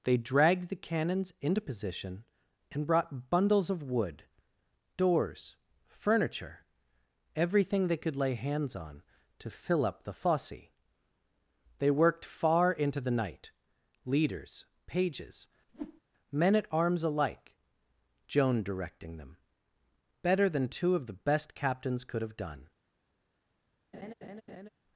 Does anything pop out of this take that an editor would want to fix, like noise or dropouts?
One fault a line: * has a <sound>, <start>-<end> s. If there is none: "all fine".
* has a whoosh, 15.7-16.0 s
* has a laugh, 23.9-24.7 s